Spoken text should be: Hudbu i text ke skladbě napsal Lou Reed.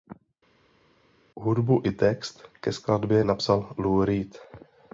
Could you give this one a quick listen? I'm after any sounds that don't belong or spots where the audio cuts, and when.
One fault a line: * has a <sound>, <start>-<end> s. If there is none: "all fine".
all fine